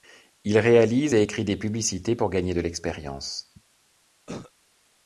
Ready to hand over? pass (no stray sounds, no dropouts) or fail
fail